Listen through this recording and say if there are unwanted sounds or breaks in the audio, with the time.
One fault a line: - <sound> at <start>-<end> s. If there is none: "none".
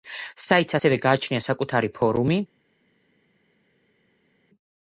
none